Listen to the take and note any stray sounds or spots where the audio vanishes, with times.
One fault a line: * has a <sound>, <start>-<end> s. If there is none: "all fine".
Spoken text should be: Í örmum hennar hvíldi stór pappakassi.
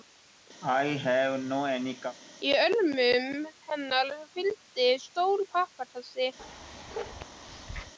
* has a cough, 0.6-2.2 s
* has a bark, 6.4-7.9 s